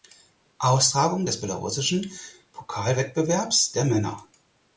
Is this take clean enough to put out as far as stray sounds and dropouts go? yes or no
yes